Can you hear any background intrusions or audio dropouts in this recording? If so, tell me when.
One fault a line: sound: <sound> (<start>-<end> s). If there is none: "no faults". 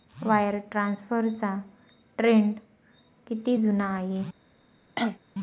sound: cough (5.0-5.2 s)